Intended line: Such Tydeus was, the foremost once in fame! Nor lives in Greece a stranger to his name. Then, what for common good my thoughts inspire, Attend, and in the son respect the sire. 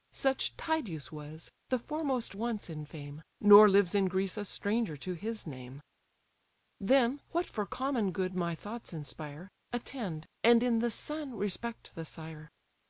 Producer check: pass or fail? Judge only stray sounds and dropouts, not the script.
pass